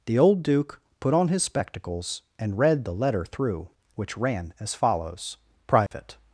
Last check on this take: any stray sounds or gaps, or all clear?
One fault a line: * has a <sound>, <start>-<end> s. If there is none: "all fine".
* has a dropout, 5.9-5.9 s